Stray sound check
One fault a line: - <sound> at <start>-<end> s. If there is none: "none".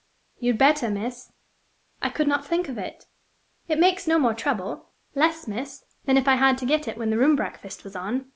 none